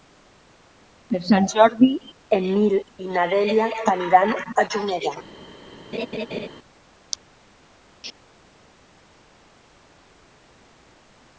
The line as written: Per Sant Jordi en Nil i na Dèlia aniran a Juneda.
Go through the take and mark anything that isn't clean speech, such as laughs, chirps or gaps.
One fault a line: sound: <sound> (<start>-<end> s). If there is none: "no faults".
sound: laugh (5.9-6.5 s)